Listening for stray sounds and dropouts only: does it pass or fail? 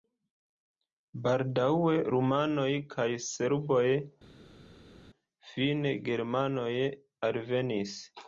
pass